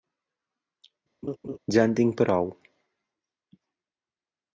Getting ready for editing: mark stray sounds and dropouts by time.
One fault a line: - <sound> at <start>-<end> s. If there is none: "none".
- laugh at 1.2-1.6 s